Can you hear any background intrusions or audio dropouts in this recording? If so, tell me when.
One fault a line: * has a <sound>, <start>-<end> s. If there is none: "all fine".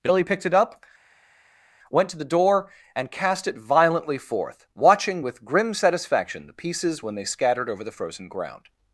all fine